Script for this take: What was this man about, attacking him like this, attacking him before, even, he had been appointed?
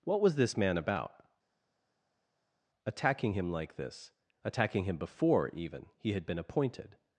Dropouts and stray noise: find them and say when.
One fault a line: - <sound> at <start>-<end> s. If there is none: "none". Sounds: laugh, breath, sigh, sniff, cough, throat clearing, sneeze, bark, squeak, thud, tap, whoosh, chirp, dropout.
none